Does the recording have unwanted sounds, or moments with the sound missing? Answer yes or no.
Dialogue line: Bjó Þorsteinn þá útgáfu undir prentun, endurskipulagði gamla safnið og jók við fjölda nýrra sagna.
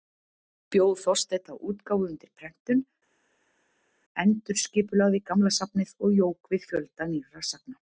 no